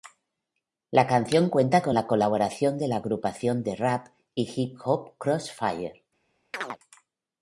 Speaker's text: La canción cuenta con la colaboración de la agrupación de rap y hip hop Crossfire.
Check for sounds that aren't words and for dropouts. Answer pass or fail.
fail